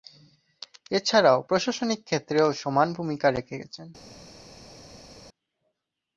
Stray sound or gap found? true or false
false